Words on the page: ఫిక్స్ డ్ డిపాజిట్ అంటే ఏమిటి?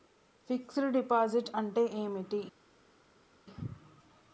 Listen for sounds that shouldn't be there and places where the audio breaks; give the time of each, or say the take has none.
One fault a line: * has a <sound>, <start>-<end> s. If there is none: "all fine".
all fine